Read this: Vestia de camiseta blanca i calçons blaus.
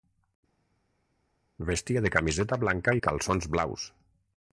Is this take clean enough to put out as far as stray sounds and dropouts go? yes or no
yes